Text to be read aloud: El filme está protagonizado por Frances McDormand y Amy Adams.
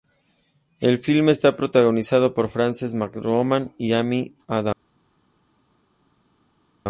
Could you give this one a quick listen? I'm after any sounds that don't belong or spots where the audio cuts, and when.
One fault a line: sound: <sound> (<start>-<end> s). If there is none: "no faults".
no faults